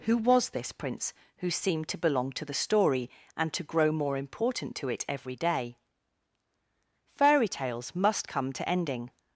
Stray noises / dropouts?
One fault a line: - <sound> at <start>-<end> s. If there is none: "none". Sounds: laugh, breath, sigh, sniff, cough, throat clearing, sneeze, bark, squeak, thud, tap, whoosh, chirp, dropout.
none